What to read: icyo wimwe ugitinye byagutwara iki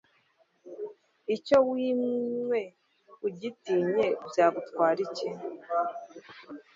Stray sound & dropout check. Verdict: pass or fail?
pass